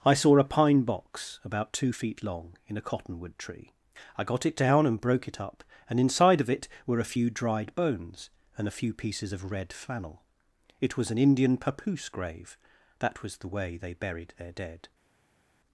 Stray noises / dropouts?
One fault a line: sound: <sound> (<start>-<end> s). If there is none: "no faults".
no faults